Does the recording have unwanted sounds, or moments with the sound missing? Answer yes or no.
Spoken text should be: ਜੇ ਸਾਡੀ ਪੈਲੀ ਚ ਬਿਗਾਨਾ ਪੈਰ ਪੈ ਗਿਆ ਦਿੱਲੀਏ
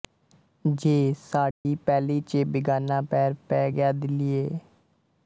yes